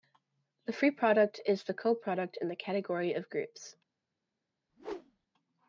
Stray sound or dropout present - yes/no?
yes